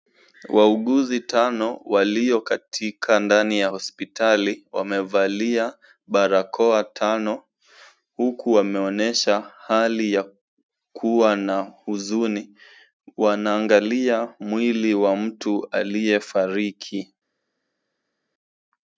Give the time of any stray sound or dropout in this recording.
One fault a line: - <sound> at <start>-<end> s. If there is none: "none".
none